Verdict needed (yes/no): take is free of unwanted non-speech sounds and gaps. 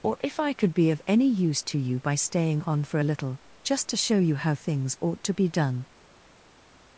yes